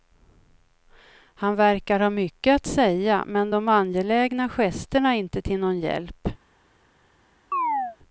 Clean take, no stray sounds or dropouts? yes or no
no